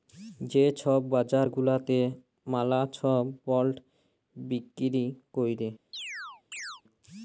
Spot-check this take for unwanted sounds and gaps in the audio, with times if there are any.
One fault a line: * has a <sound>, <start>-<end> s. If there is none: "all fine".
* has a chirp, 5.9-6.8 s